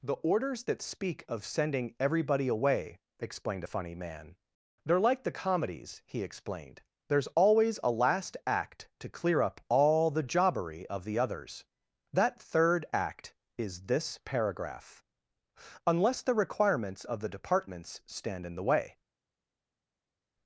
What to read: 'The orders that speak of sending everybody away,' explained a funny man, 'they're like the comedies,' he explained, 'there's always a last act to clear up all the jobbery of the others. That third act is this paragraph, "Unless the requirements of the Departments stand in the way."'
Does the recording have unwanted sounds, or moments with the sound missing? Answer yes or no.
no